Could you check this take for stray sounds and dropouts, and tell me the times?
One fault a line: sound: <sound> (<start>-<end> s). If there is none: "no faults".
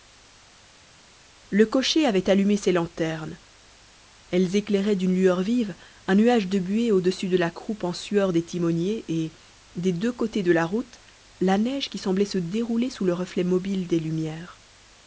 no faults